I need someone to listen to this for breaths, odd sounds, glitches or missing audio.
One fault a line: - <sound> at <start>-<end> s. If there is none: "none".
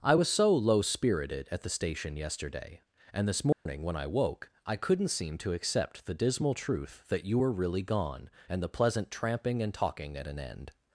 - dropout at 3.5-3.7 s